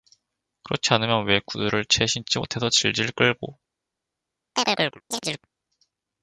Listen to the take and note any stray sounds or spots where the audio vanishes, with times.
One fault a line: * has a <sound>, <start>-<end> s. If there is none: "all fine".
* has a chirp, 4.6-5.5 s